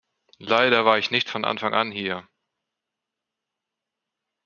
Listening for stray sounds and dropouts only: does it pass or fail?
pass